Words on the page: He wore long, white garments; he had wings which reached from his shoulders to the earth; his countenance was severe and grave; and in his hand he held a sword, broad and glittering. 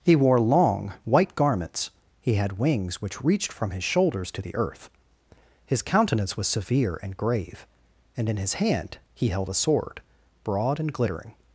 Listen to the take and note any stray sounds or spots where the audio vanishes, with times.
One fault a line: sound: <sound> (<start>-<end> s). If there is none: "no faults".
no faults